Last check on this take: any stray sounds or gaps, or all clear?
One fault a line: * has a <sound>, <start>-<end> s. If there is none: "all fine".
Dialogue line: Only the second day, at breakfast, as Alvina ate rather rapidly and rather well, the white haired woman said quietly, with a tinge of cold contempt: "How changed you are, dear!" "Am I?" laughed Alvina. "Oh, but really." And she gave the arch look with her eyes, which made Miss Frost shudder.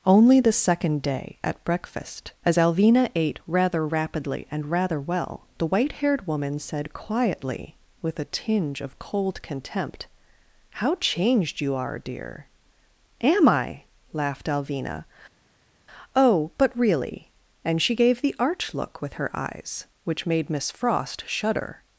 all fine